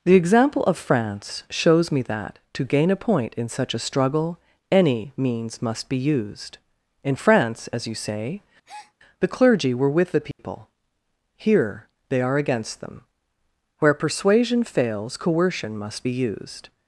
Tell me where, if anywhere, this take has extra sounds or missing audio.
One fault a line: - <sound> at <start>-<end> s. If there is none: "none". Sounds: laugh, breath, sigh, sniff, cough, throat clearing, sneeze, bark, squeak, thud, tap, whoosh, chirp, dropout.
- breath at 8.6-8.9 s
- dropout at 10.3-10.4 s